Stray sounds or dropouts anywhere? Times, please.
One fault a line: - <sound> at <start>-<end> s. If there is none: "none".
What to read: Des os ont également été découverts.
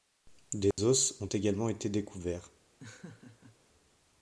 - dropout at 0.7-0.8 s
- laugh at 2.8-3.6 s